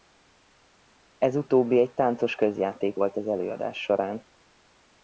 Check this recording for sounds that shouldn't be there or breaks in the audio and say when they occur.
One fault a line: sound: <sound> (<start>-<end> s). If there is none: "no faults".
no faults